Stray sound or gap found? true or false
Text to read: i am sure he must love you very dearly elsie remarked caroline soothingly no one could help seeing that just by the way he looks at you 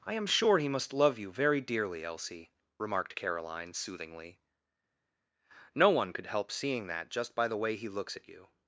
false